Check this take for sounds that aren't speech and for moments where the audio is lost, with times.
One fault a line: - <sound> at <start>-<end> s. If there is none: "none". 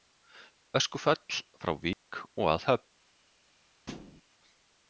- dropout at 1.9-2.1 s
- thud at 3.9-4.2 s